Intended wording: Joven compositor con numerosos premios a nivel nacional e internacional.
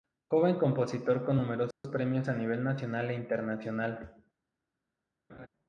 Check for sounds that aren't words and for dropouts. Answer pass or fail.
fail